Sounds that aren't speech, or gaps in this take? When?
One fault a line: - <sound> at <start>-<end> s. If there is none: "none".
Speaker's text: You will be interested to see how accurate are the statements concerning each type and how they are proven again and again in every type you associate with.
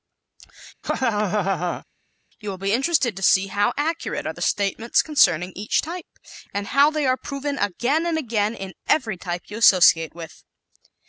- laugh at 0.8-1.8 s